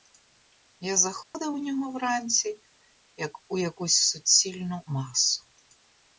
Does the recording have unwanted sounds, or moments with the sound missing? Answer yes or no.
yes